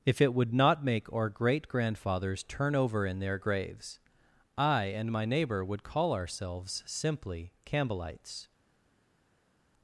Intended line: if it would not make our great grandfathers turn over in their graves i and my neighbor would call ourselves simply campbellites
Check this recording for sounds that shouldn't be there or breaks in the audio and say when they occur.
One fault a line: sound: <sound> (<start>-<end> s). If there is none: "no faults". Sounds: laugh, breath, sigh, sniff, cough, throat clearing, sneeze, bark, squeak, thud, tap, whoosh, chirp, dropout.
no faults